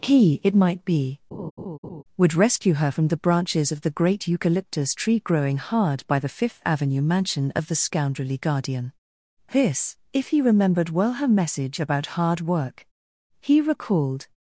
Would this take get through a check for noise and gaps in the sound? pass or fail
fail